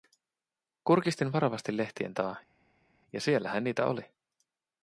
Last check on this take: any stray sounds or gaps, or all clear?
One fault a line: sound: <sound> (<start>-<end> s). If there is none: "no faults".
no faults